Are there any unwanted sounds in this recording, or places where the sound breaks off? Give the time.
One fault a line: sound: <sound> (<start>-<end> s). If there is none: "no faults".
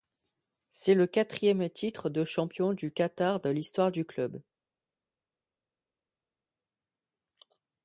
no faults